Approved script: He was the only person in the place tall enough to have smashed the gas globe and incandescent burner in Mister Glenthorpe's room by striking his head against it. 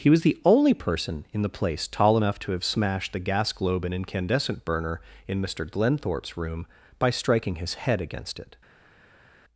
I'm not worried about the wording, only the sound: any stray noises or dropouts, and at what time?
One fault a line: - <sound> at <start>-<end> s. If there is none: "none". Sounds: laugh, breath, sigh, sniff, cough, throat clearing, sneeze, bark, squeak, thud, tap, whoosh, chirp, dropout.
none